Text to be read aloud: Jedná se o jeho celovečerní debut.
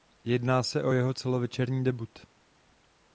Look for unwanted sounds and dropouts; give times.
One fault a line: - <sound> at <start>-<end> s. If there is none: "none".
none